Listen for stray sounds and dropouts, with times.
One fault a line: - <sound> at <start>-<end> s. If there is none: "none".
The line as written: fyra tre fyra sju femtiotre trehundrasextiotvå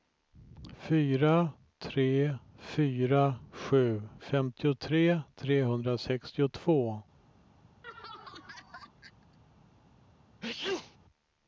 - laugh at 7.8-9.4 s
- sneeze at 10.4-11.0 s